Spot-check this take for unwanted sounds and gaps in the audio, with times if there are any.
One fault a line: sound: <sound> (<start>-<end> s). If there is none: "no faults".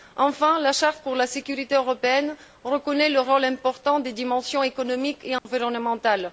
sound: dropout (5.4-5.5 s)